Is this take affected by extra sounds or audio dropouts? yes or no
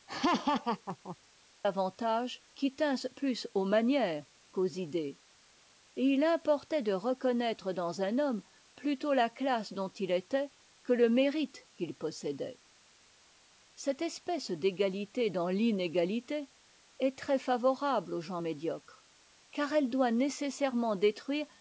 yes